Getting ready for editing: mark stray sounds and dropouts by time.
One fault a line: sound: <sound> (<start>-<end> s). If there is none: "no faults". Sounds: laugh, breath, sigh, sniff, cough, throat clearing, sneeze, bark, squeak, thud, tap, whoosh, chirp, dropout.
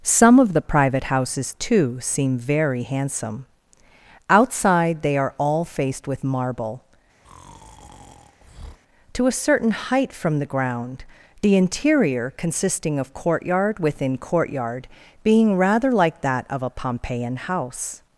sound: breath (7.2-8.8 s)